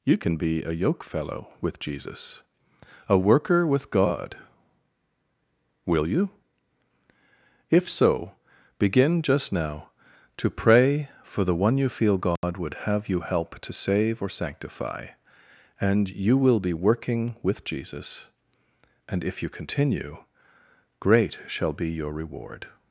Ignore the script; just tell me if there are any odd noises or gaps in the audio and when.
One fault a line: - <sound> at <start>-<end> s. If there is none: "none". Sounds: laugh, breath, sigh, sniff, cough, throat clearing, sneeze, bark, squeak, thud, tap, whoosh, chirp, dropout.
- dropout at 12.4-12.4 s